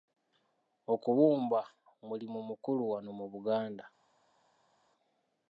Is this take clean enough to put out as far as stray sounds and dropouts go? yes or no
yes